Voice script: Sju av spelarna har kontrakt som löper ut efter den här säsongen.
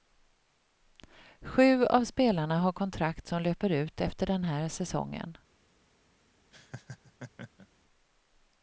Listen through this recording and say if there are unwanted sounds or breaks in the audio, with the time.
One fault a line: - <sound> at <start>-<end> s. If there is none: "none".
- laugh at 6.5-7.7 s